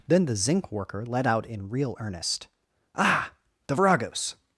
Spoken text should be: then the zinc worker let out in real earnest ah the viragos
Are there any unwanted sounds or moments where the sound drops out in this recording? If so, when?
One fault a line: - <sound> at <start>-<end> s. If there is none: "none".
none